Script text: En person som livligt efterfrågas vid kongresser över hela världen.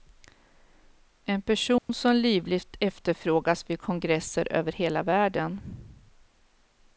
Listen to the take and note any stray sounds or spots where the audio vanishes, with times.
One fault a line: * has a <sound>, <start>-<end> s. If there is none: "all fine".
* has a dropout, 1.8-1.9 s